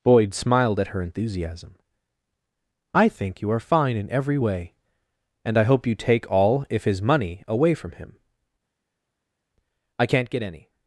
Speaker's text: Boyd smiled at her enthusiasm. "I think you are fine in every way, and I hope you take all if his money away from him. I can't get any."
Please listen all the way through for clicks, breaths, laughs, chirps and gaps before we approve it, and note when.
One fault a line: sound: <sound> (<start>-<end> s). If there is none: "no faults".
no faults